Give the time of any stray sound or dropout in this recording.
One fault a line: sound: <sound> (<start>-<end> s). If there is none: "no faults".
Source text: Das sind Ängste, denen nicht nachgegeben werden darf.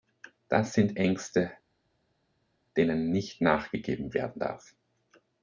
no faults